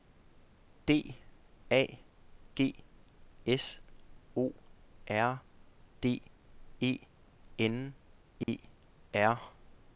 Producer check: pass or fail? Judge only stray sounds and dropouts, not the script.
fail